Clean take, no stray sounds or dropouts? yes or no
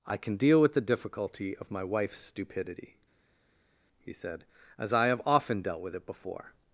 yes